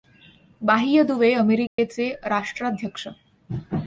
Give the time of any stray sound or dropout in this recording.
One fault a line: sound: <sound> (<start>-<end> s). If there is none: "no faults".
sound: dropout (1.7-1.8 s)